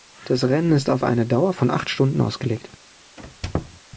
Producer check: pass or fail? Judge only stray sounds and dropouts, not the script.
fail